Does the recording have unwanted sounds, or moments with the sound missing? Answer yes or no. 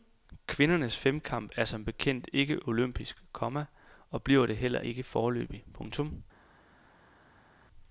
no